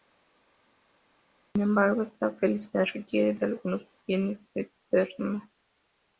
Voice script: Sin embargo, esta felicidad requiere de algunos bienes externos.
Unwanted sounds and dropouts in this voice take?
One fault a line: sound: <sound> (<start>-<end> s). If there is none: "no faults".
no faults